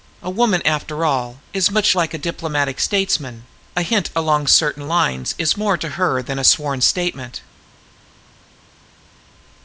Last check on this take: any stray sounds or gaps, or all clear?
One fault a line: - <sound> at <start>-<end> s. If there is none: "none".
none